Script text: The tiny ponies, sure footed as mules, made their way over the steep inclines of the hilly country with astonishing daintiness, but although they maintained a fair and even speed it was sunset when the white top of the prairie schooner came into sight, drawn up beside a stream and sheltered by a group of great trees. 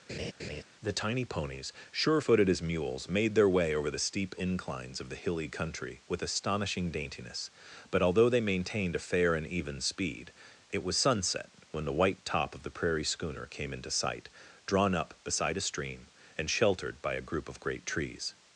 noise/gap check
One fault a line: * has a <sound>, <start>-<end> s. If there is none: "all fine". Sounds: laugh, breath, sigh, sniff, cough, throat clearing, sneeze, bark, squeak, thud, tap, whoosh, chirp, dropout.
* has a laugh, 0.1-0.6 s